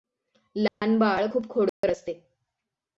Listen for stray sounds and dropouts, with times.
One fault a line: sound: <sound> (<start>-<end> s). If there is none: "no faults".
sound: dropout (0.7-0.8 s)
sound: dropout (1.7-1.8 s)